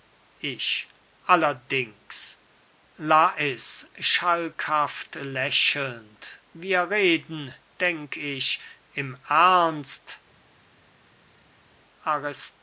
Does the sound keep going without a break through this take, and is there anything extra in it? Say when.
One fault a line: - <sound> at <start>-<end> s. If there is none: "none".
none